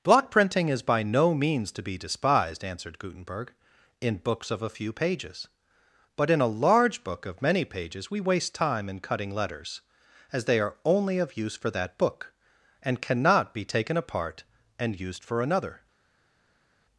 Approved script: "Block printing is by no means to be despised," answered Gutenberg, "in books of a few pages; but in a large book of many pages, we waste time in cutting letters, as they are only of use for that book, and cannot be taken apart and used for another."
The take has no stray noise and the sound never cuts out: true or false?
true